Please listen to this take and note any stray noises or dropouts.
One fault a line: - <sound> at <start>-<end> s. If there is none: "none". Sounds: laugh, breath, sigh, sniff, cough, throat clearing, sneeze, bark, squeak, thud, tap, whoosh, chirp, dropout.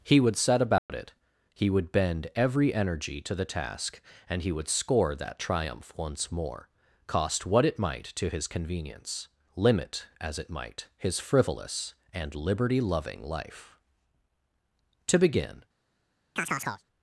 - dropout at 0.8-0.9 s
- chirp at 16.4-16.8 s